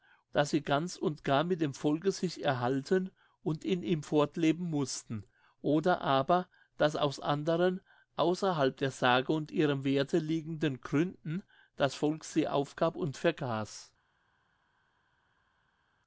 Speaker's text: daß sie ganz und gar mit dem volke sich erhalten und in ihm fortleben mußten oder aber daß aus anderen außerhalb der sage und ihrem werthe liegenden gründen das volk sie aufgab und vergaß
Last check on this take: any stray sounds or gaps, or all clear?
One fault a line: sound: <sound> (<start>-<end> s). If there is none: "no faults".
no faults